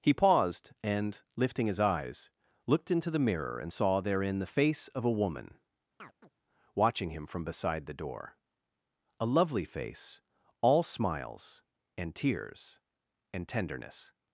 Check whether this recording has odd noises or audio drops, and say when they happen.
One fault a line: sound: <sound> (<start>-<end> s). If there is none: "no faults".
sound: chirp (6.0-6.3 s)